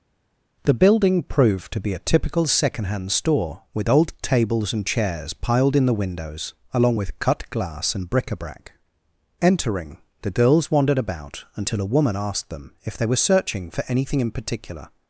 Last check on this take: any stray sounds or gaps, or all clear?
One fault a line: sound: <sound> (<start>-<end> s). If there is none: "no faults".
no faults